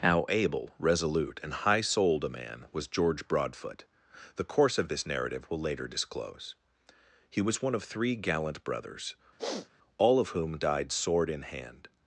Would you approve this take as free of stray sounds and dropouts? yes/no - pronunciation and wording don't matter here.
no